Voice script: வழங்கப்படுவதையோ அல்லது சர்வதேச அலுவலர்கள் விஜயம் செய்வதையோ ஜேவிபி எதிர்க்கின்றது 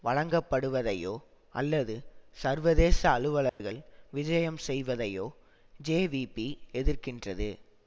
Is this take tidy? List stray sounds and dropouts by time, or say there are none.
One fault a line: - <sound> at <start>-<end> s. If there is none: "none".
- dropout at 3.5-3.6 s